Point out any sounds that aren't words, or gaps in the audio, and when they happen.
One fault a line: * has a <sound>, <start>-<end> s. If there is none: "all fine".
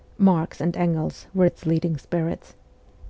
all fine